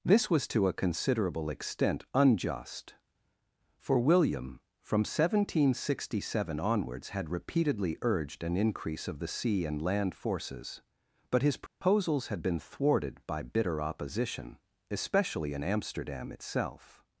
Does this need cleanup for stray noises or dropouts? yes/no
yes